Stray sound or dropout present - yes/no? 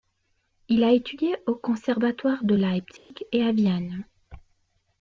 yes